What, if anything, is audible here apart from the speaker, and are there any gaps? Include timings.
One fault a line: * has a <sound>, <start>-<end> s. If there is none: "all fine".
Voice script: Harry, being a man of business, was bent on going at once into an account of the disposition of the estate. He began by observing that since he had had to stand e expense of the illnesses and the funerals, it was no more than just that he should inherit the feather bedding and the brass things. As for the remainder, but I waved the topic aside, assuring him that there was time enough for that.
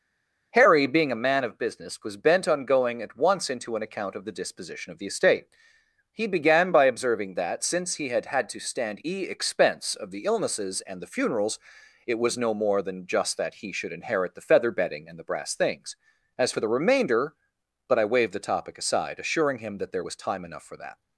all fine